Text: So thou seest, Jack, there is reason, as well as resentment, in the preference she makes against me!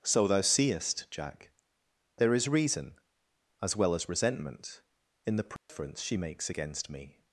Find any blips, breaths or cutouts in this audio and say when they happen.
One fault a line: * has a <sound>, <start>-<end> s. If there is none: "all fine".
* has a dropout, 5.6-5.7 s